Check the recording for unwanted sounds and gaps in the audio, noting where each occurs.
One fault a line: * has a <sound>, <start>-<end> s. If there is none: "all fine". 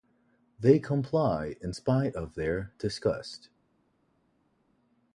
all fine